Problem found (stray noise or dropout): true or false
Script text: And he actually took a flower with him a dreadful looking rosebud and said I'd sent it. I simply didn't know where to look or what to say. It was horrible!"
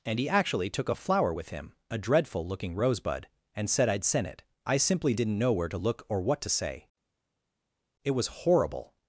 false